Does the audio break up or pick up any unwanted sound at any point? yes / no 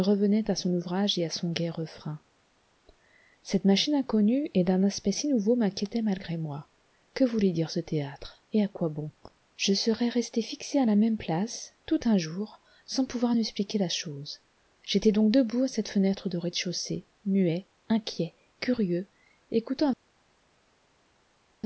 no